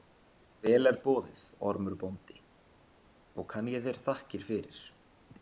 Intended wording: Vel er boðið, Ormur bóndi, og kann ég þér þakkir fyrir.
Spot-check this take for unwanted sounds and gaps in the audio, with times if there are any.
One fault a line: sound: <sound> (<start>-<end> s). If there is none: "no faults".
no faults